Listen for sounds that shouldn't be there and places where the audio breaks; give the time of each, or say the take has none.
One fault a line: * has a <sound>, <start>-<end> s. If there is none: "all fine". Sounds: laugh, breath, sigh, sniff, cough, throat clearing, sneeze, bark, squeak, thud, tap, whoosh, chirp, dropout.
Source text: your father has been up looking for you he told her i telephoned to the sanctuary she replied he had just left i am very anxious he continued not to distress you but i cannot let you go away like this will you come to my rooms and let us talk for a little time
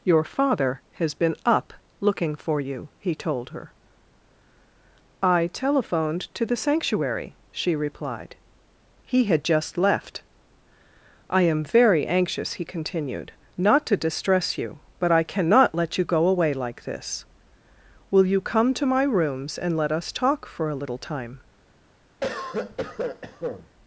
* has a cough, 22.2-23.7 s